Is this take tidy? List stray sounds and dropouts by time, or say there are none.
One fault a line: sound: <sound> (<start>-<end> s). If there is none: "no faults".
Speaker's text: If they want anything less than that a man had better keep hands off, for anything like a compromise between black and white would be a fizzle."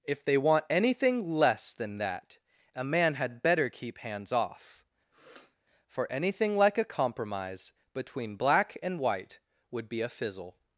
sound: sniff (5.1-5.6 s)